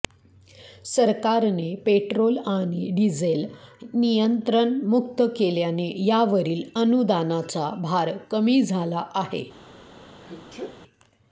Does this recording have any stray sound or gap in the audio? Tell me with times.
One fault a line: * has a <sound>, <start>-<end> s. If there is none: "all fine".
* has a sneeze, 10.2-10.8 s